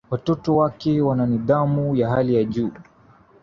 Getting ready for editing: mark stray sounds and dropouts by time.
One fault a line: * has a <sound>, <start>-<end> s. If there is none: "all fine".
all fine